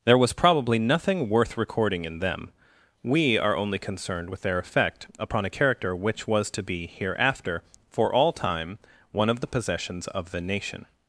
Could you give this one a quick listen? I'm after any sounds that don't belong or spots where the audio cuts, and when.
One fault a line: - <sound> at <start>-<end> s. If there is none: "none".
none